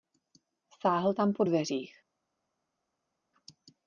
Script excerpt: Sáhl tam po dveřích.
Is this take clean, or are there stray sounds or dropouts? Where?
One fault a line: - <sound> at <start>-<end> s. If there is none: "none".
none